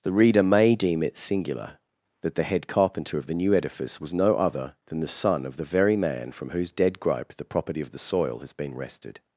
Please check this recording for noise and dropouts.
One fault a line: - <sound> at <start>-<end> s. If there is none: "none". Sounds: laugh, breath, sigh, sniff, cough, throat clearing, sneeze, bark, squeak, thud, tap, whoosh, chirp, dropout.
none